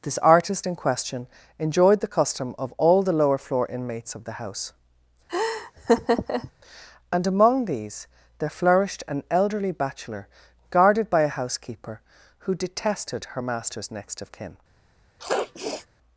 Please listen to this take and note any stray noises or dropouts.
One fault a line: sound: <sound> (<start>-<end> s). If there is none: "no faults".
sound: laugh (5.3-6.5 s)
sound: sniff (15.2-15.9 s)